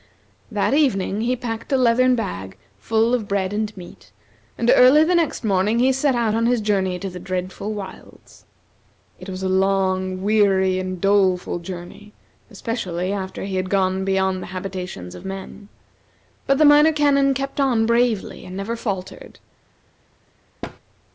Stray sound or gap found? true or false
true